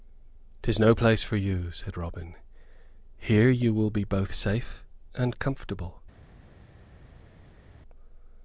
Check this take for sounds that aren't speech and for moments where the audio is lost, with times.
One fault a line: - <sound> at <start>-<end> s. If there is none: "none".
none